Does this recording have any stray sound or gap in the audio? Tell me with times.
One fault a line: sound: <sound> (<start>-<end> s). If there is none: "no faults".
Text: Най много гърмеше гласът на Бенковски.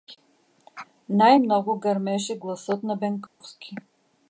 sound: dropout (3.3-3.4 s)